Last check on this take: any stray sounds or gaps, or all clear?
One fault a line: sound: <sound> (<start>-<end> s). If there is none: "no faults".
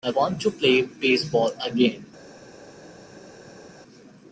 no faults